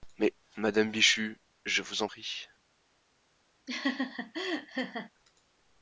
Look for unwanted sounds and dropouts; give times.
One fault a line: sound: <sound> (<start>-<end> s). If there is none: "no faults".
sound: laugh (3.7-5.1 s)